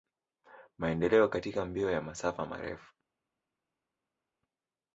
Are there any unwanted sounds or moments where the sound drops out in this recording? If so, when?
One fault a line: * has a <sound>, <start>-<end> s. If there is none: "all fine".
all fine